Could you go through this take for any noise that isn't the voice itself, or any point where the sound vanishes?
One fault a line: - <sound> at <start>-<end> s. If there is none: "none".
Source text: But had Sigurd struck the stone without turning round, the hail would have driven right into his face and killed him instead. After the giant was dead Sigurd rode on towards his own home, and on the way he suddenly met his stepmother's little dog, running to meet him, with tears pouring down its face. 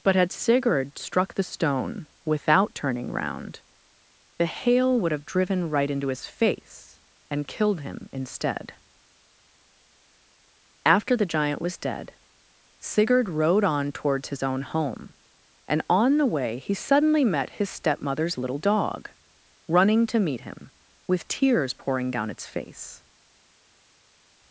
none